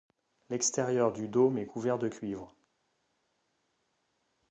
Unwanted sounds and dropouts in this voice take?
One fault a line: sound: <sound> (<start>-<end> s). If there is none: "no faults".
no faults